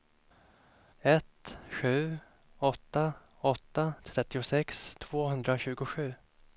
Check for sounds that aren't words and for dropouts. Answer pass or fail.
pass